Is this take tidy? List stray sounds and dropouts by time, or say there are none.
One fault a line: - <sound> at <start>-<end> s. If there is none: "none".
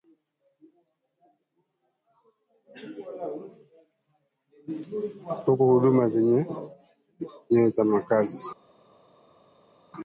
none